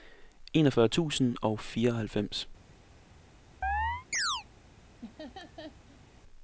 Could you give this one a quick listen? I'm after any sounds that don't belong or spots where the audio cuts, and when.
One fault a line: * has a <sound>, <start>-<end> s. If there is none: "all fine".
* has a chirp, 3.6-4.4 s
* has a laugh, 5.0-6.0 s